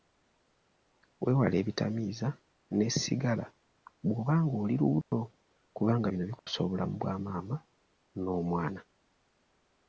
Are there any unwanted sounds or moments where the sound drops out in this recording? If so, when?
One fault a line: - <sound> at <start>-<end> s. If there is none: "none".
- dropout at 5.0-5.1 s
- dropout at 6.4-6.5 s